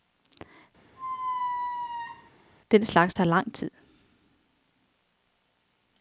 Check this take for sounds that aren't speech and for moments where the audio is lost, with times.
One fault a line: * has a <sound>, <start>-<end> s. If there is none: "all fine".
* has a squeak, 1.0-2.3 s